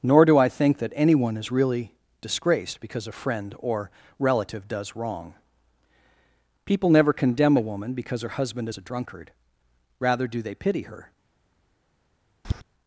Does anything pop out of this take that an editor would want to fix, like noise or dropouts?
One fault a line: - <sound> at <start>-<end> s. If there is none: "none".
- tap at 12.4-12.6 s